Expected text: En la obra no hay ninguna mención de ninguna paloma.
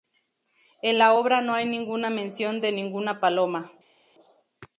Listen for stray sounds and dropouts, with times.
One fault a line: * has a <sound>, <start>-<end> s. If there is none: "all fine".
all fine